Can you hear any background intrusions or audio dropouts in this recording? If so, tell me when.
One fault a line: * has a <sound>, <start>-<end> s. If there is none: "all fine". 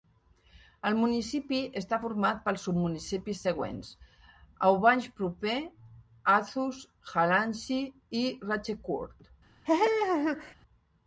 * has a laugh, 9.6-10.5 s